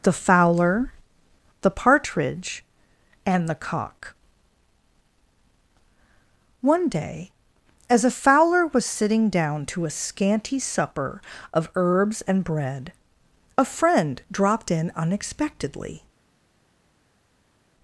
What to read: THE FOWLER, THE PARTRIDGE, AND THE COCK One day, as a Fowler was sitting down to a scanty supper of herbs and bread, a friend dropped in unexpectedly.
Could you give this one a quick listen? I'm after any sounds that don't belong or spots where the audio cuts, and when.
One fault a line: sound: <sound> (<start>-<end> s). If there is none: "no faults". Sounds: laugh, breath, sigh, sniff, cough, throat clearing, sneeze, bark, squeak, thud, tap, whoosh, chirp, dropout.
no faults